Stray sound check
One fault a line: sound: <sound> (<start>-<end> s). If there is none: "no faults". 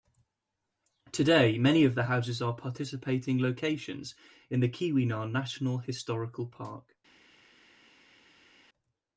no faults